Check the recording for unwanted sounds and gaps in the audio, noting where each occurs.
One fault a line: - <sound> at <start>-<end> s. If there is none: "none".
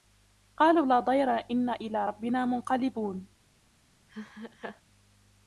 - laugh at 4.1-4.8 s